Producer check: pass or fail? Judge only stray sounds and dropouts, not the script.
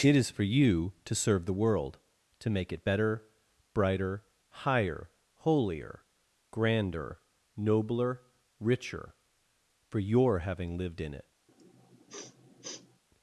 fail